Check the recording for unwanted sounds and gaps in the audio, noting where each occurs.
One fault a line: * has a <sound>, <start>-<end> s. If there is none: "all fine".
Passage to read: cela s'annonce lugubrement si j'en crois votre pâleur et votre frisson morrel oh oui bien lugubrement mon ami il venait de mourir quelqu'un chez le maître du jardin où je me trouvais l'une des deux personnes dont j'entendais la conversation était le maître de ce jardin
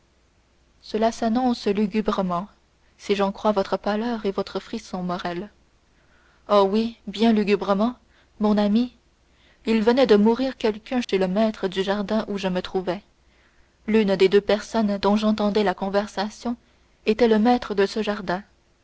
* has a dropout, 11.0-11.1 s